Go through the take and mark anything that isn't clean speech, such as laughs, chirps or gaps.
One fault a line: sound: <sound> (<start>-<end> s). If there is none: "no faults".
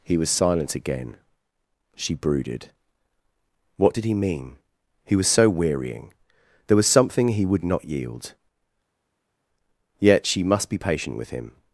no faults